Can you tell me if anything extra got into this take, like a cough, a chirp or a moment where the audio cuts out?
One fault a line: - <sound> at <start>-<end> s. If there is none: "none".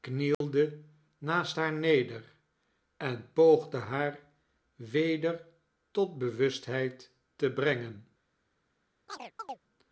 - dropout at 0.3-0.4 s
- chirp at 9.1-9.6 s